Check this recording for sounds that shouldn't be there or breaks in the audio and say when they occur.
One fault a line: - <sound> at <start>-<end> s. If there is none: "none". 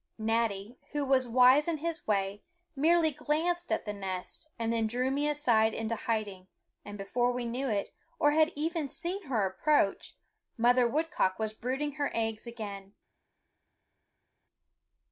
none